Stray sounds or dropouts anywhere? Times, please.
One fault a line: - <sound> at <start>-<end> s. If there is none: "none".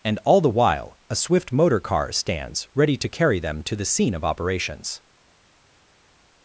none